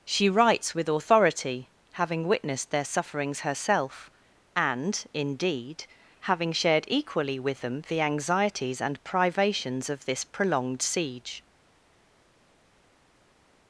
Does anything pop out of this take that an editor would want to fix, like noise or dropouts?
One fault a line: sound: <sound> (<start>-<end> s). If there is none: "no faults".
no faults